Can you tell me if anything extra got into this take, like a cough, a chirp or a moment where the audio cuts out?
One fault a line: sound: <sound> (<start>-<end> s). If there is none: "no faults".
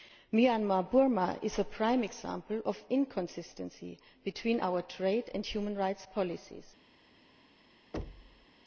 sound: thud (7.9-8.5 s)